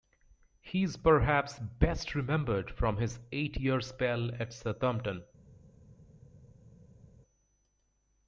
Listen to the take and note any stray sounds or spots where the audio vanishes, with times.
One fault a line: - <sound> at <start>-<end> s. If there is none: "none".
none